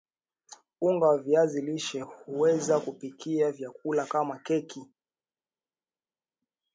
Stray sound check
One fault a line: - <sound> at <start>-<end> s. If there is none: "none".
none